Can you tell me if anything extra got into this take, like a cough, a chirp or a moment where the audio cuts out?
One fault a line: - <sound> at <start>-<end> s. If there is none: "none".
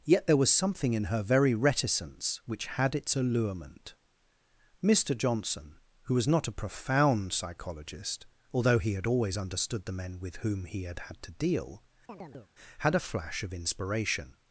- chirp at 12.1-12.5 s